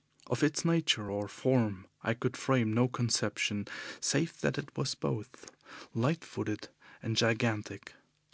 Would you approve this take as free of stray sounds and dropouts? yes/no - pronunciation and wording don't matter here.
yes